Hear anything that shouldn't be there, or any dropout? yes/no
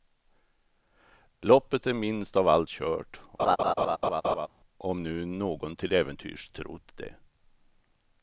yes